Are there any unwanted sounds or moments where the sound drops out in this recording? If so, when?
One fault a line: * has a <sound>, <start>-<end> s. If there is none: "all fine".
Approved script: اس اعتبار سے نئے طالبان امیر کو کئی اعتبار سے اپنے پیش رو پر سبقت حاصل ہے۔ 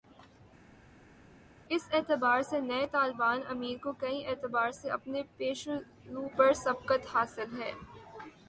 all fine